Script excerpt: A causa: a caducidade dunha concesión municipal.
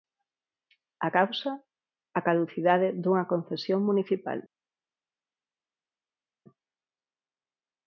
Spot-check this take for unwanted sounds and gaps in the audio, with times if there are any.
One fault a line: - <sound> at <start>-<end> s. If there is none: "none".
none